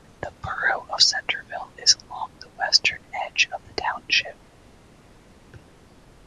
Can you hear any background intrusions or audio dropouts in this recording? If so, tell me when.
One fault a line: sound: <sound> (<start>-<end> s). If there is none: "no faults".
no faults